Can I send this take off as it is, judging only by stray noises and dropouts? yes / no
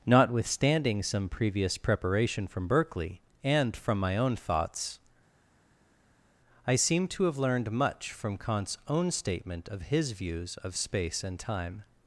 yes